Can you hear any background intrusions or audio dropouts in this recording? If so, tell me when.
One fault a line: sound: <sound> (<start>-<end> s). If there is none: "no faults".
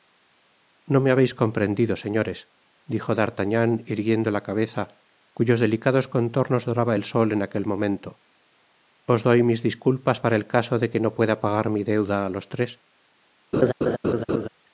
sound: laugh (13.5-14.5 s)